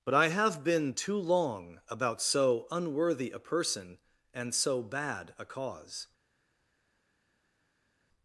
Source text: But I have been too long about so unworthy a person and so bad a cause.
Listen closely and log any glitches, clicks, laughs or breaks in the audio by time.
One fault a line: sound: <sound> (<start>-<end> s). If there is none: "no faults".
no faults